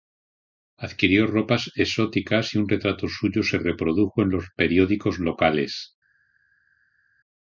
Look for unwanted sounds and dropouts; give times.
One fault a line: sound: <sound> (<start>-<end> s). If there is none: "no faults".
no faults